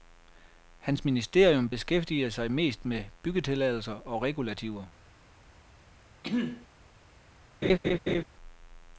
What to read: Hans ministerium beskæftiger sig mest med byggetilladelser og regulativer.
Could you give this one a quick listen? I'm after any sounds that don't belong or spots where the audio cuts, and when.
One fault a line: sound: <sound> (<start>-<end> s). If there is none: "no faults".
sound: throat clearing (6.2-6.7 s)
sound: laugh (7.6-8.2 s)